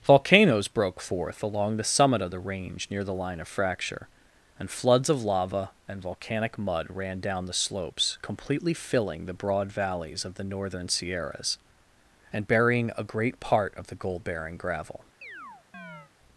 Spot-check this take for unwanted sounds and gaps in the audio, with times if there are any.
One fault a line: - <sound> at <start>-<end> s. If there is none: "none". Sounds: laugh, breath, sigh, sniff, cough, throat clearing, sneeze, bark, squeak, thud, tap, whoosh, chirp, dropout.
- chirp at 15.2-16.1 s